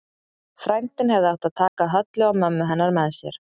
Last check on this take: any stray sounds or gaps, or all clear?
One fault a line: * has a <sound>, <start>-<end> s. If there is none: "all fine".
* has a dropout, 1.7-1.8 s